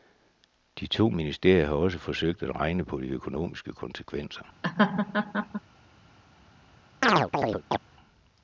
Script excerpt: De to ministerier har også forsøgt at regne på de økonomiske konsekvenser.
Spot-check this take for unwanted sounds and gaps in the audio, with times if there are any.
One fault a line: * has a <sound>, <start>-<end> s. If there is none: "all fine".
* has a laugh, 4.6-5.6 s
* has a chirp, 7.0-7.8 s